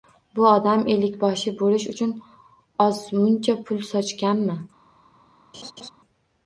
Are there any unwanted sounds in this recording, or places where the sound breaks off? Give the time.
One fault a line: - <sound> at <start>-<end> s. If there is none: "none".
- laugh at 5.5-5.9 s